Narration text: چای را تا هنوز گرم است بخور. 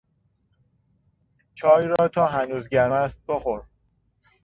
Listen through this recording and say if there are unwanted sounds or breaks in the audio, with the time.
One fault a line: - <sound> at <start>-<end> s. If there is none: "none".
- dropout at 2.0-2.0 s